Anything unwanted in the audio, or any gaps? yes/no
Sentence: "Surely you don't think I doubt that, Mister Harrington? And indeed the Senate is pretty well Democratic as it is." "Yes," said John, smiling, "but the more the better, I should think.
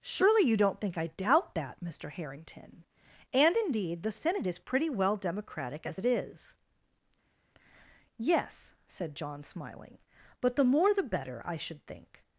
no